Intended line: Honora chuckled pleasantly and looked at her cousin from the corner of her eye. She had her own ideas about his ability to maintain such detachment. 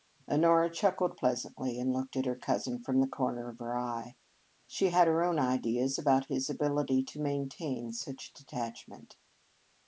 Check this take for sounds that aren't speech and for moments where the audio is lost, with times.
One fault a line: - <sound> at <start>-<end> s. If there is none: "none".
none